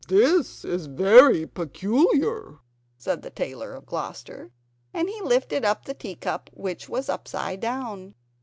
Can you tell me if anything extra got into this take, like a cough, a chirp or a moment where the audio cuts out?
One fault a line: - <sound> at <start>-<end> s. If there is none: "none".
none